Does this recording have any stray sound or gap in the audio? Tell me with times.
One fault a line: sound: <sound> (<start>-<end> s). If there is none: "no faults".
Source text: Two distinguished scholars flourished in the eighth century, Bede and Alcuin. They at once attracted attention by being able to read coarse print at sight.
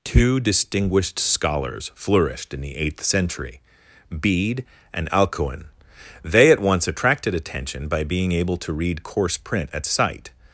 no faults